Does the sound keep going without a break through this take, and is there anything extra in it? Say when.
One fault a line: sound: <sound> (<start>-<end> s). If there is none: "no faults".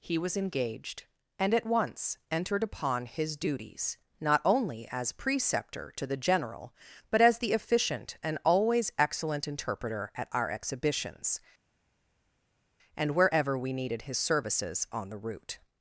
no faults